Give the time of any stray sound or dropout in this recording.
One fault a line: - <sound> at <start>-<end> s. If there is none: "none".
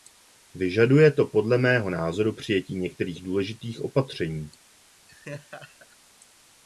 - laugh at 5.1-6.0 s